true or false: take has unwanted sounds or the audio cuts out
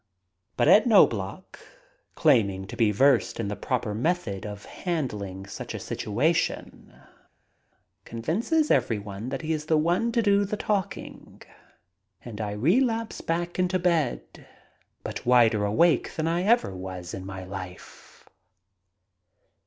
false